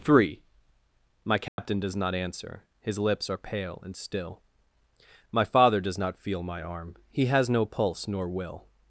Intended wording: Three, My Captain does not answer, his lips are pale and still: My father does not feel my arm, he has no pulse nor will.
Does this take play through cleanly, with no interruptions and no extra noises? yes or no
no